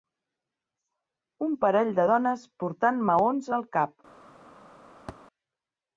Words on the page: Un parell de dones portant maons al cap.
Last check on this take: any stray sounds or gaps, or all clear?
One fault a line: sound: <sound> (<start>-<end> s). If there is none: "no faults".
sound: thud (5.1-5.2 s)